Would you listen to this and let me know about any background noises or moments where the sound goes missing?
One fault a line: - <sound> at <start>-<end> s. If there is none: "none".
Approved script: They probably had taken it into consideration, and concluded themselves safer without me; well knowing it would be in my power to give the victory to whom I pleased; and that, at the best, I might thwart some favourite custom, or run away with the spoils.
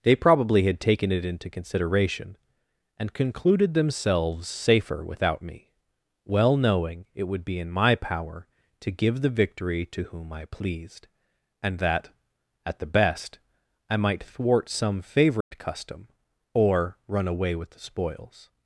- dropout at 15.4-15.5 s